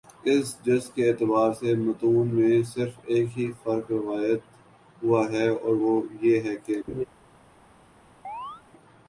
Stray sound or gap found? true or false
true